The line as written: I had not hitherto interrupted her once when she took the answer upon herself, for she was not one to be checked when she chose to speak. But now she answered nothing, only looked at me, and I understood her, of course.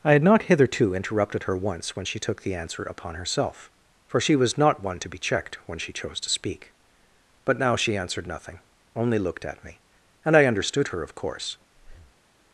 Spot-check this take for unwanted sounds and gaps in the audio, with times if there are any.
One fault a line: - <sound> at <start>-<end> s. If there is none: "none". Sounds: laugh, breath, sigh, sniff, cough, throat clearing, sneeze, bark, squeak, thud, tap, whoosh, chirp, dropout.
- breath at 11.7-12.2 s